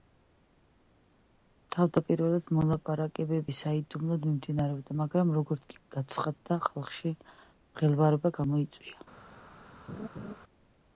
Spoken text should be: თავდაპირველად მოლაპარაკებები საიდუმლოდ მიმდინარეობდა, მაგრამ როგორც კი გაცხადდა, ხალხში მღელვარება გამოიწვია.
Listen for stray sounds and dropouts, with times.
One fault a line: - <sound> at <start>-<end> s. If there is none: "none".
- laugh at 9.9-10.3 s